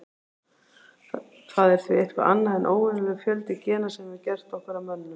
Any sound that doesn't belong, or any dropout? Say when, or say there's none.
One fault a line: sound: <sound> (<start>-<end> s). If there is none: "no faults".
no faults